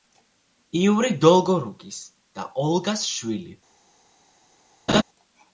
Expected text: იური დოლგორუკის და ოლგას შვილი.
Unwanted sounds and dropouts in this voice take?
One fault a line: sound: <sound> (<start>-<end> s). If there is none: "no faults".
sound: laugh (4.9-5.0 s)